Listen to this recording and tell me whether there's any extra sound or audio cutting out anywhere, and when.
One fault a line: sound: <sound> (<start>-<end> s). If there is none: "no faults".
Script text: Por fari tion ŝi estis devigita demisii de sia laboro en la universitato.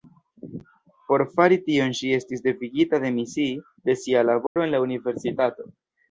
sound: dropout (4.5-4.6 s)